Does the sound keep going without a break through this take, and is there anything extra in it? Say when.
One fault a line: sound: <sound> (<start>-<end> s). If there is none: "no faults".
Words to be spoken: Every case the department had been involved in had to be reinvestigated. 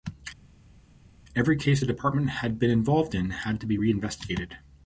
no faults